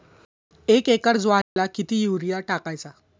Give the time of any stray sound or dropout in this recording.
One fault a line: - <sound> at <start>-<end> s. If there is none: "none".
- dropout at 1.4-1.6 s